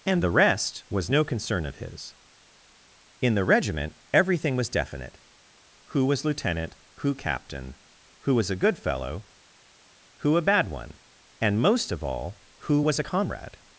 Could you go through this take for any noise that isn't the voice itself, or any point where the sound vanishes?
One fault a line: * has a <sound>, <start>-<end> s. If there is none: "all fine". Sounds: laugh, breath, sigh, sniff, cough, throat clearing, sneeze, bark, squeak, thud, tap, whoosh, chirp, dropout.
all fine